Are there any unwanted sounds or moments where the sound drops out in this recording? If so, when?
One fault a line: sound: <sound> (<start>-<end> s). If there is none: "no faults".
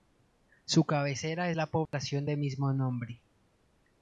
sound: dropout (1.9-1.9 s)